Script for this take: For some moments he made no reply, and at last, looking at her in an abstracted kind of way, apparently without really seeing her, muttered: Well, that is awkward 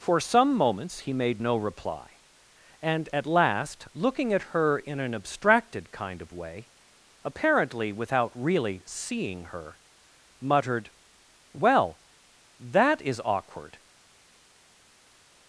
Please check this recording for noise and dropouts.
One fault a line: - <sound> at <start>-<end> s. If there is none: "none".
none